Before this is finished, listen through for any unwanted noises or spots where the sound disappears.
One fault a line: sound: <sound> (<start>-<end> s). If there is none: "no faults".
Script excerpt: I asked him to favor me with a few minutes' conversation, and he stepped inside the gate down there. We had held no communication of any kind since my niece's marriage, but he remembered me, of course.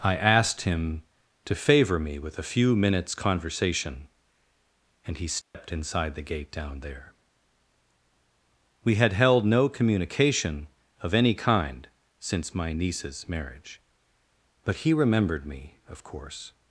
sound: dropout (5.4-5.5 s)